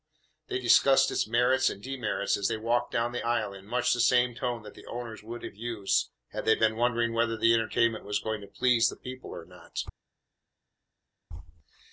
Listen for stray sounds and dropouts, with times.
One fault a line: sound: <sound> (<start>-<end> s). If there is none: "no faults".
no faults